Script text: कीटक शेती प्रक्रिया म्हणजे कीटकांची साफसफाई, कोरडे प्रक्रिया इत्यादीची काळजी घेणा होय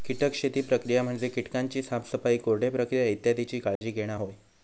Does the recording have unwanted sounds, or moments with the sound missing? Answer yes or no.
yes